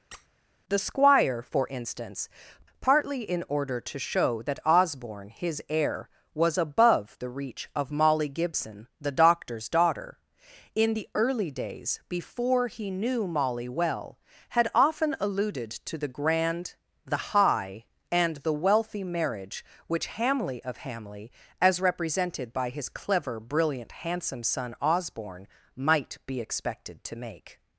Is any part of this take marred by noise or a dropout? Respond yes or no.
yes